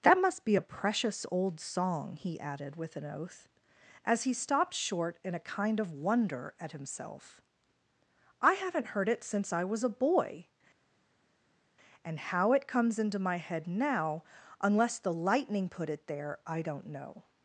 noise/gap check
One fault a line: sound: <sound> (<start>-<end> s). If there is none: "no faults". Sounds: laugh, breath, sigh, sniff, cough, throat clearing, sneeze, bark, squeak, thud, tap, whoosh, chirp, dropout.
no faults